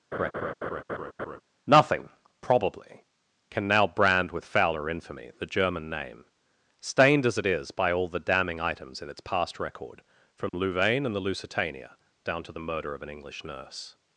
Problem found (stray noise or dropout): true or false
true